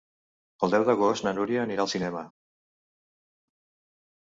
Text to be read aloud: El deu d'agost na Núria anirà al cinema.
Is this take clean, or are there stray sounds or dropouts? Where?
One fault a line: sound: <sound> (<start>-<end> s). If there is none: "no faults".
no faults